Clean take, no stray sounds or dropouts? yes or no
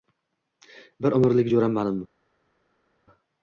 yes